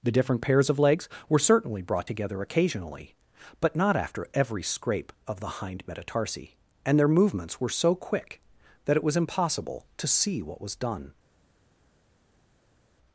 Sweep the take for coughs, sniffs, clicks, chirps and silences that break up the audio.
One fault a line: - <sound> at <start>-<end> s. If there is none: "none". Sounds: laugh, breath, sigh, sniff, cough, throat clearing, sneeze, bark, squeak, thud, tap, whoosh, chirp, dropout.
none